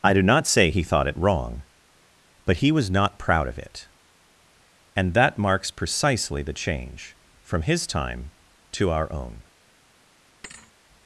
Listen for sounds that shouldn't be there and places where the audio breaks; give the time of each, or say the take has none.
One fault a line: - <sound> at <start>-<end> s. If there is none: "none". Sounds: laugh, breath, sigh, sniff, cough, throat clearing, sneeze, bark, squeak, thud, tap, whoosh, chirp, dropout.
- thud at 10.4-10.7 s